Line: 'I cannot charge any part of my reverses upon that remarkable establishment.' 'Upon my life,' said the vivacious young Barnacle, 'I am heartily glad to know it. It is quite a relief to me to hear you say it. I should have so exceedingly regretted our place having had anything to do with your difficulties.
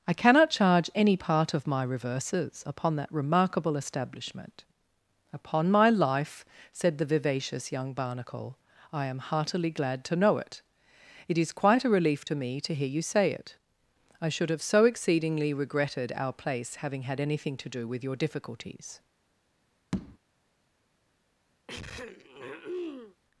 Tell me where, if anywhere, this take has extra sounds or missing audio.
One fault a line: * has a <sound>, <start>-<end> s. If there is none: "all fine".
* has a tap, 19.9-20.2 s
* has a throat clearing, 21.7-23.2 s